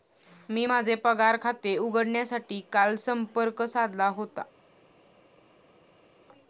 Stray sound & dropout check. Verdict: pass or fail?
pass